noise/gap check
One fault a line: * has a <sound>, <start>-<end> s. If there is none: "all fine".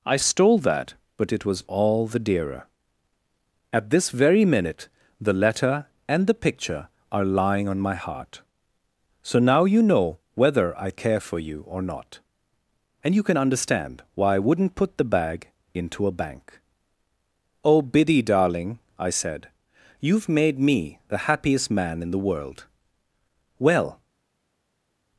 all fine